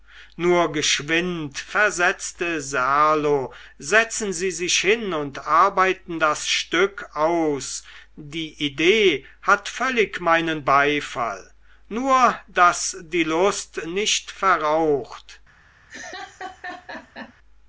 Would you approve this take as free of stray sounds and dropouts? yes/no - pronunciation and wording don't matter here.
no